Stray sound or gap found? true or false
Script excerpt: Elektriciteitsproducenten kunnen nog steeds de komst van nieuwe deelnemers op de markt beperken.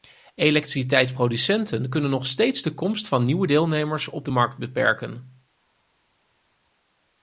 false